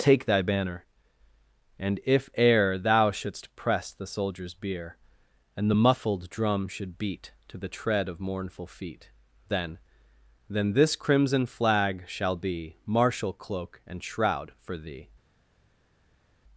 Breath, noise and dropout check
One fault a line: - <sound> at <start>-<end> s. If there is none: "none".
none